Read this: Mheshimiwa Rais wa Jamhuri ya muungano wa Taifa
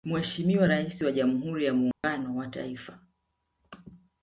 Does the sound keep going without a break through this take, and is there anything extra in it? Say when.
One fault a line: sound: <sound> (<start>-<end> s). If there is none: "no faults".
sound: dropout (1.9-2.0 s)